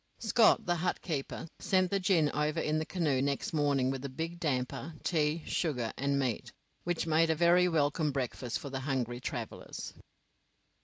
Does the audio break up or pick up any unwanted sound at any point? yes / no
no